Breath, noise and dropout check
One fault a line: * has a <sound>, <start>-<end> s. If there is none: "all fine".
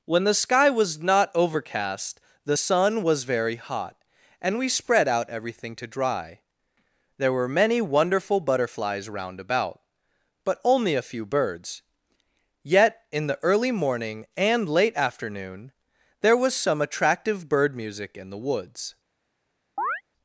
* has a chirp, 19.8-20.0 s